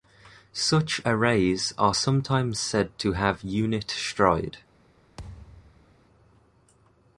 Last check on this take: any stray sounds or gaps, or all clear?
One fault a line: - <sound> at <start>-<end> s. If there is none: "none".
- thud at 5.2-6.0 s